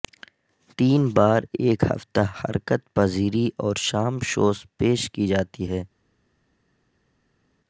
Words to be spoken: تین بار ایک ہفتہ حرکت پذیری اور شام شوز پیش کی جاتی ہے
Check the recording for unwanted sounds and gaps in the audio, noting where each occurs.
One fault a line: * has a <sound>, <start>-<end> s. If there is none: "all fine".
all fine